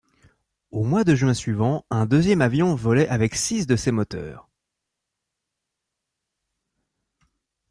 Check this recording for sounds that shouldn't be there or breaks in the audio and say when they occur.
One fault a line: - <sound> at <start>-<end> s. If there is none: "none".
none